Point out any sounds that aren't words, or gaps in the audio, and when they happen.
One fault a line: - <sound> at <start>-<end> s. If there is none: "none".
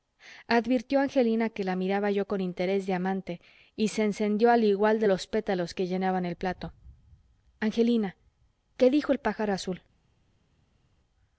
none